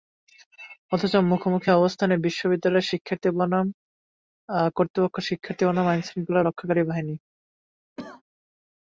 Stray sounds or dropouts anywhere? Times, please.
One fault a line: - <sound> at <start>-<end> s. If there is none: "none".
- cough at 8.0-8.2 s